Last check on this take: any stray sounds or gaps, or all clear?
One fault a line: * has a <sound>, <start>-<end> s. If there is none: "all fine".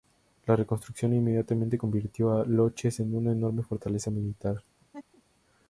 * has a laugh, 4.8-5.2 s